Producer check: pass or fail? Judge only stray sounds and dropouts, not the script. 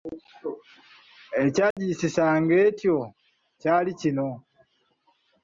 fail